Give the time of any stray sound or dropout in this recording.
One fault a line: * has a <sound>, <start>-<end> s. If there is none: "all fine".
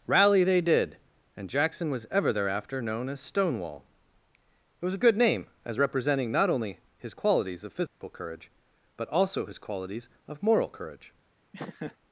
* has a dropout, 7.9-8.0 s
* has a laugh, 11.5-12.0 s